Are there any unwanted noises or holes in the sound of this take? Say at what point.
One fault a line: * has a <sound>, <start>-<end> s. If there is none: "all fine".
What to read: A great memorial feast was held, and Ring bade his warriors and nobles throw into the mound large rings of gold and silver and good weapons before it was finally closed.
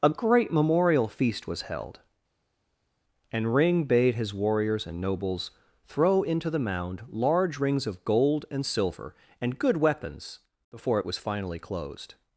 all fine